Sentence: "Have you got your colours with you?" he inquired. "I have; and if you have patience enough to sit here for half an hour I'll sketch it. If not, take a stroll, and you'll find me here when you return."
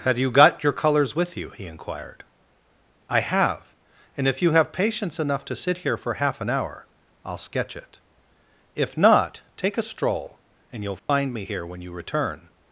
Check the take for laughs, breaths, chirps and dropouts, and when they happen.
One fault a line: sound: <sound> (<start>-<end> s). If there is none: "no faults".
sound: dropout (11.0-11.1 s)